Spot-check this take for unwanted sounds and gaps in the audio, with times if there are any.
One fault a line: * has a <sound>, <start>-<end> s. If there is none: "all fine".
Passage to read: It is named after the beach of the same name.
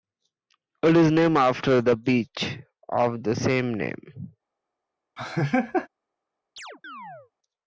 * has a laugh, 5.2-5.9 s
* has a chirp, 6.6-7.3 s